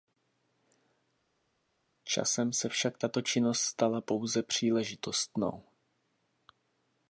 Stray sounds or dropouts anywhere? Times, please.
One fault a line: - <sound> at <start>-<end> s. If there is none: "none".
none